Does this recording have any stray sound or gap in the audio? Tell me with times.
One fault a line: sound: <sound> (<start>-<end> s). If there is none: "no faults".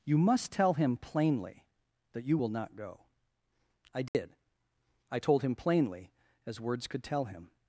sound: dropout (4.1-4.1 s)